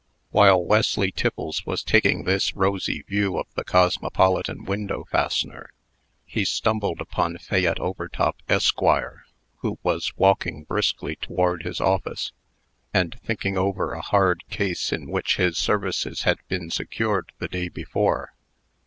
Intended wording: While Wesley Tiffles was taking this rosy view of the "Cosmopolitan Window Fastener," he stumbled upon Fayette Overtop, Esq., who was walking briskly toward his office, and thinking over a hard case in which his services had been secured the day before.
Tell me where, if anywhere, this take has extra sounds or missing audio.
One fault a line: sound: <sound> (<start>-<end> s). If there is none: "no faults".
no faults